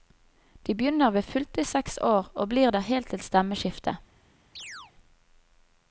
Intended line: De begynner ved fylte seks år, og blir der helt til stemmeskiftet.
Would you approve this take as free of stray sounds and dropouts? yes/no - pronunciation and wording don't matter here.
no